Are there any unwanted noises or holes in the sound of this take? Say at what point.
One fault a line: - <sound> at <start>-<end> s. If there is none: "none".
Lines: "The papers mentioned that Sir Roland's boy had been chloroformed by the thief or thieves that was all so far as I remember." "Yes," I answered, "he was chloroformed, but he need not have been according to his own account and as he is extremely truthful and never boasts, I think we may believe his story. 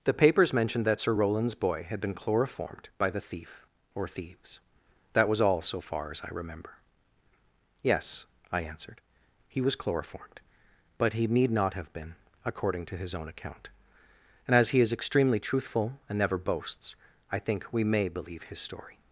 none